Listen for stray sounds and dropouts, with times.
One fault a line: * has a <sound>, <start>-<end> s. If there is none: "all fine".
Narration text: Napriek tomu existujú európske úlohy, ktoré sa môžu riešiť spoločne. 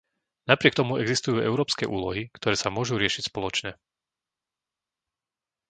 all fine